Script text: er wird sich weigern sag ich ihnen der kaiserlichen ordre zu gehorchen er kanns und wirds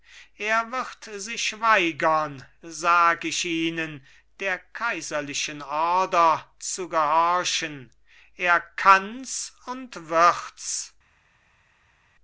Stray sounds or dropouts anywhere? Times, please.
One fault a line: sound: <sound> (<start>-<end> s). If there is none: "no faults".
no faults